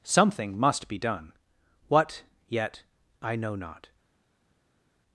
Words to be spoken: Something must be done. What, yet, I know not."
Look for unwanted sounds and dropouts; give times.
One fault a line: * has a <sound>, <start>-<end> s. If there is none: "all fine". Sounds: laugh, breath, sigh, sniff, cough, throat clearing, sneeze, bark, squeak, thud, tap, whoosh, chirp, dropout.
all fine